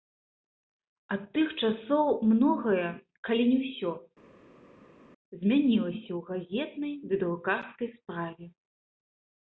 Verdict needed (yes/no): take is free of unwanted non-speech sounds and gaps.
yes